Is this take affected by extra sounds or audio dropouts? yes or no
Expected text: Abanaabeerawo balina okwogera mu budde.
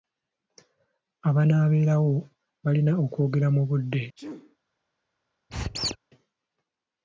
yes